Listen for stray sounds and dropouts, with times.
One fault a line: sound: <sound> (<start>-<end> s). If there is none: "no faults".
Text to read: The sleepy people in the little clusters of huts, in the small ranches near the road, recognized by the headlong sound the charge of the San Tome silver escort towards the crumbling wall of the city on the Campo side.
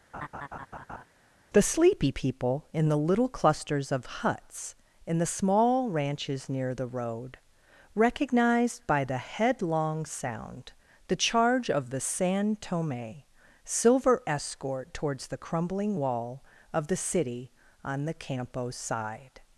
sound: laugh (0.1-1.0 s)